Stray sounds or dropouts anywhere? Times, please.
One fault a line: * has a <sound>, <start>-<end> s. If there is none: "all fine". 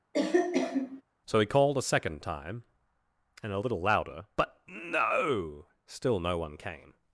* has a cough, 0.1-1.0 s